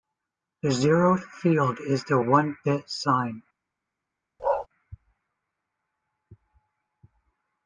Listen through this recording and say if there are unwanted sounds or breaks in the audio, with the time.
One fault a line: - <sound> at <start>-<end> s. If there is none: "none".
- bark at 4.4-4.7 s